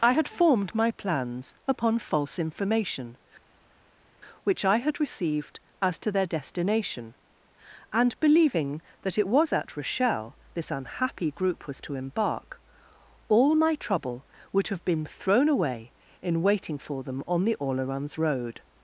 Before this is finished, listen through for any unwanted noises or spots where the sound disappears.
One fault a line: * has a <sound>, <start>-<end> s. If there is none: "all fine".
all fine